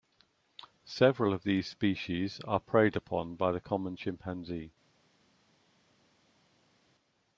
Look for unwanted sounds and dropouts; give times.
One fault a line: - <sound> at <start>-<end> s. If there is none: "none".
none